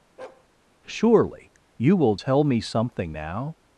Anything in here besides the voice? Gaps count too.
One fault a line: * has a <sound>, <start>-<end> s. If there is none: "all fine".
* has a bark, 0.2-0.5 s